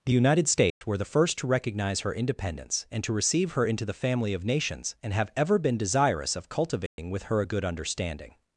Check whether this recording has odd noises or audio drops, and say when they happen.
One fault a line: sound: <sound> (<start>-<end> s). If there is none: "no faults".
sound: dropout (0.7-0.8 s)
sound: dropout (6.9-7.0 s)